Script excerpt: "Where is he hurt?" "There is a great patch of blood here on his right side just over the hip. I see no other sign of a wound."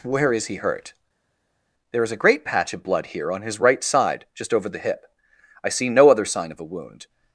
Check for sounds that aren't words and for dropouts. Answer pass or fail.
pass